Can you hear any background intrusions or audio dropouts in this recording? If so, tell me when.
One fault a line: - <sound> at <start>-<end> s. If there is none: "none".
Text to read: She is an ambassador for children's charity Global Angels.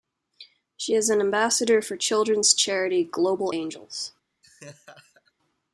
- laugh at 4.4-5.3 s